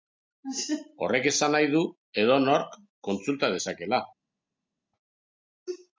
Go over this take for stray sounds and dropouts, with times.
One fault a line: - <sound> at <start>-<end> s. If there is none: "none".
none